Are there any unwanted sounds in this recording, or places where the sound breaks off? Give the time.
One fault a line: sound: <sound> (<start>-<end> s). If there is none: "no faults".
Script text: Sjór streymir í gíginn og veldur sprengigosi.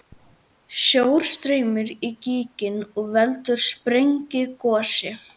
no faults